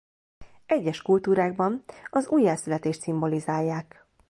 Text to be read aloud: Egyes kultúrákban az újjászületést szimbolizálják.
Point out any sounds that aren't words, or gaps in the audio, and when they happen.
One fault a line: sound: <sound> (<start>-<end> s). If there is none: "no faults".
no faults